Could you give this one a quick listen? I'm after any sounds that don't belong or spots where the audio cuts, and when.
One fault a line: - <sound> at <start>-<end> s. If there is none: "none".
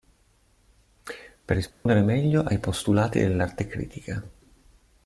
- dropout at 1.7-1.9 s